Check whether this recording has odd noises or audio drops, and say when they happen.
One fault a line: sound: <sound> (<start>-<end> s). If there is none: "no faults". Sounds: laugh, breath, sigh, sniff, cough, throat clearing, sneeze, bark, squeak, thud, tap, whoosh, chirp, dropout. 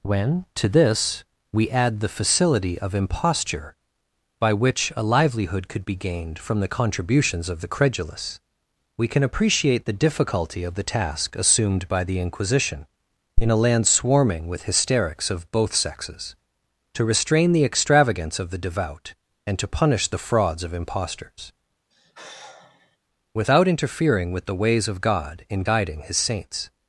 sound: sigh (21.9-23.0 s)